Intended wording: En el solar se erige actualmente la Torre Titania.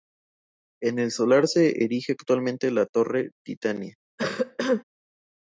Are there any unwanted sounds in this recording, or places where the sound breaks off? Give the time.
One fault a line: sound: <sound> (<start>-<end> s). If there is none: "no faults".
sound: cough (4.2-4.8 s)